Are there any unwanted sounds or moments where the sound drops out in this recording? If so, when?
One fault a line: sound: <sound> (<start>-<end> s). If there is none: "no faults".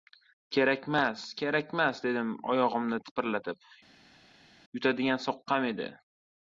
no faults